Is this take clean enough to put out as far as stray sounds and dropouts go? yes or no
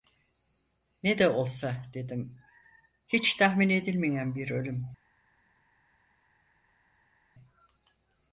yes